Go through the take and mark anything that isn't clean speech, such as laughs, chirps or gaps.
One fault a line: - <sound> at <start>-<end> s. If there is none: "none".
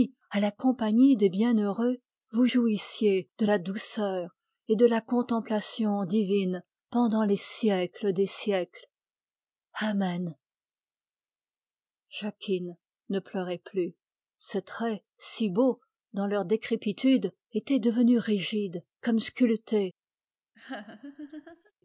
- laugh at 20.5-21.7 s